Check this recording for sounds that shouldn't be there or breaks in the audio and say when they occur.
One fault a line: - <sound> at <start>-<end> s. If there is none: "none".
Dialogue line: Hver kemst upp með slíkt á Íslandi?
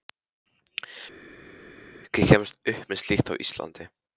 none